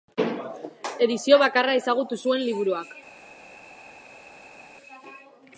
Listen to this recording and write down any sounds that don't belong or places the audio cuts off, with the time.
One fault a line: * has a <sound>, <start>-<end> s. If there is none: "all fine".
all fine